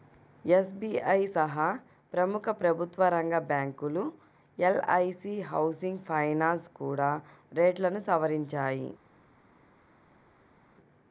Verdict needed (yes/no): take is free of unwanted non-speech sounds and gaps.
yes